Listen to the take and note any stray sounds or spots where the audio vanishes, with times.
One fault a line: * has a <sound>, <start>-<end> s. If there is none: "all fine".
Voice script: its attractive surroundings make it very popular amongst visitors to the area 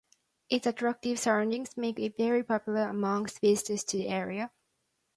all fine